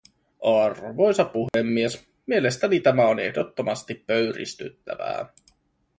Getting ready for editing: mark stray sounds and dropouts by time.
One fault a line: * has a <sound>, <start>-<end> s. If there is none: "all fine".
* has a dropout, 1.5-1.5 s